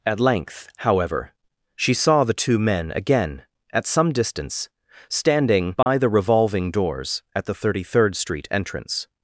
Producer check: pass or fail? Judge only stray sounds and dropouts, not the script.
fail